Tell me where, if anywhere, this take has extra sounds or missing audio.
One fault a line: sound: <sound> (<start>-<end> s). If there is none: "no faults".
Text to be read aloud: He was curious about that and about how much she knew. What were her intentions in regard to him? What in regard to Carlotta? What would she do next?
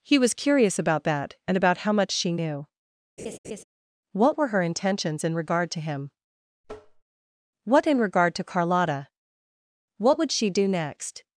sound: laugh (3.2-3.6 s)
sound: tap (6.6-7.0 s)